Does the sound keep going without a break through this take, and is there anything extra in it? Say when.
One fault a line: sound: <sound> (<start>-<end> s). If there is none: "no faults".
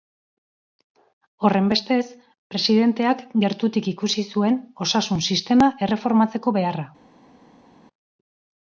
no faults